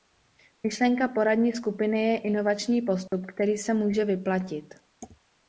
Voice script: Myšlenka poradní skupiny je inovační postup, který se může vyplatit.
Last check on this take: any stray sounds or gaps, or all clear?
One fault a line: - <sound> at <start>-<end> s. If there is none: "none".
- dropout at 3.1-3.1 s